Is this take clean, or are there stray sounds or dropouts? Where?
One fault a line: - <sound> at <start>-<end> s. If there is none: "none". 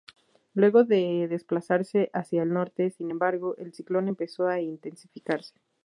none